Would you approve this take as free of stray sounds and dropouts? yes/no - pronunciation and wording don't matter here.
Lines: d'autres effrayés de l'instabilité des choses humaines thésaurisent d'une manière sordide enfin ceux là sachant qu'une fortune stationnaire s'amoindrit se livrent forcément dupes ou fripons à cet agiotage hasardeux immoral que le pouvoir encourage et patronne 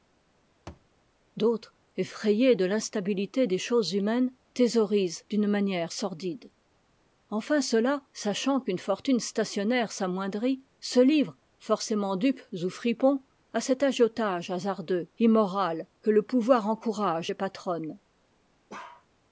no